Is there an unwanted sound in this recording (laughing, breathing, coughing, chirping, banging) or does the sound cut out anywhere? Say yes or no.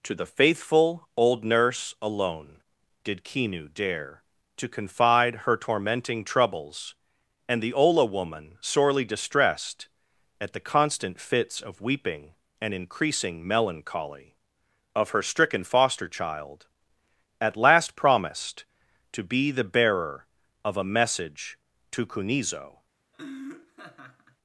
yes